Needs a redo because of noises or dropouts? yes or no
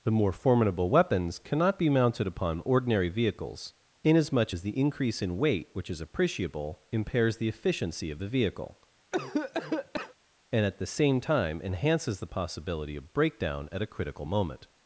yes